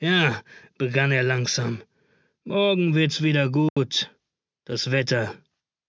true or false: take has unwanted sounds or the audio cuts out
true